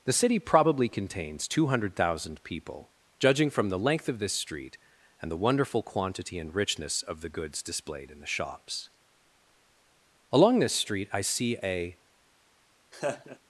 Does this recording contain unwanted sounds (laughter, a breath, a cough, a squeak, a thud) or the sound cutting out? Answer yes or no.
yes